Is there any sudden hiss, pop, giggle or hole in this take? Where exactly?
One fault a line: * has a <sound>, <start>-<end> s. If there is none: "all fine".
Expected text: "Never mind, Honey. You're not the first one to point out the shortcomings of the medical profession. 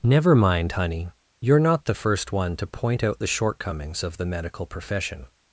all fine